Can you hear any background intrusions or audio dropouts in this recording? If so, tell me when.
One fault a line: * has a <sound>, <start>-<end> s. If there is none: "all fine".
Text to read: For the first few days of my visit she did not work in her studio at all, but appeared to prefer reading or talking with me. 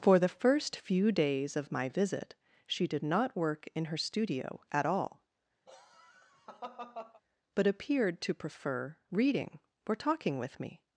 * has a laugh, 5.7-7.2 s